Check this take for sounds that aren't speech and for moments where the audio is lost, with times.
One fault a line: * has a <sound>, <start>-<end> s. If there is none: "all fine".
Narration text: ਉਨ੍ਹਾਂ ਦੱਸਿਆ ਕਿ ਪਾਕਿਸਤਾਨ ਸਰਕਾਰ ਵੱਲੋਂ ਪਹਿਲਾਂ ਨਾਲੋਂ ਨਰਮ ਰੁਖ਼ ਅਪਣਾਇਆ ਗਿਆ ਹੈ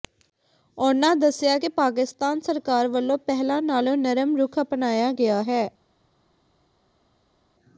all fine